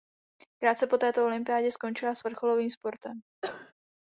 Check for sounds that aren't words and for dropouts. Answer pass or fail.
fail